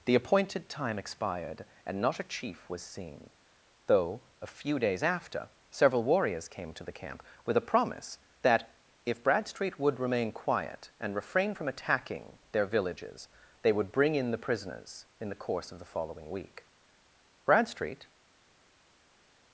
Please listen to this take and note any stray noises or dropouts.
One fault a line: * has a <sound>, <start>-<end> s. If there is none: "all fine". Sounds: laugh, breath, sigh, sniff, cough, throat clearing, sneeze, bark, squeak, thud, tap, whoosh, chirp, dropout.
all fine